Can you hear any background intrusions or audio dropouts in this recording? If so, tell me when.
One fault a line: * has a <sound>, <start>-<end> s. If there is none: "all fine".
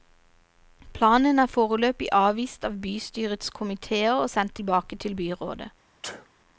* has a sneeze, 6.0-6.3 s